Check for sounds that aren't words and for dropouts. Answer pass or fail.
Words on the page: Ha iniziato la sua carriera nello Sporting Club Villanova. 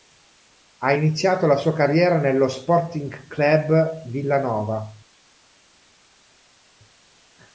pass